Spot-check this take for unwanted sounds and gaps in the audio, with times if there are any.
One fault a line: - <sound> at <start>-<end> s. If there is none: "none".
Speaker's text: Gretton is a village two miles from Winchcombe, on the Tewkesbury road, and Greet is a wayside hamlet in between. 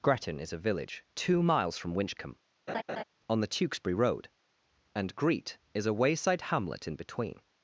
- laugh at 2.7-3.0 s